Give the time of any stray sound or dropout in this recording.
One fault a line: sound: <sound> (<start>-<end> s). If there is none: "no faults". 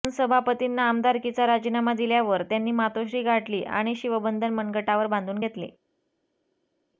no faults